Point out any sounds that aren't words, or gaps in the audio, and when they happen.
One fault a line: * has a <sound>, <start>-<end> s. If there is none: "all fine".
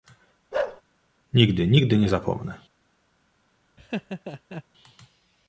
* has a bark, 0.5-0.8 s
* has a laugh, 3.8-4.6 s